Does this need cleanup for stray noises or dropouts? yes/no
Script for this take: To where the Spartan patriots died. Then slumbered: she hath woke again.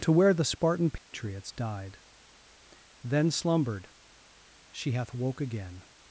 yes